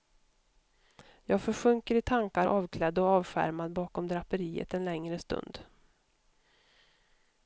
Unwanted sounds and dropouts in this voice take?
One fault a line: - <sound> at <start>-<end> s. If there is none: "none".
none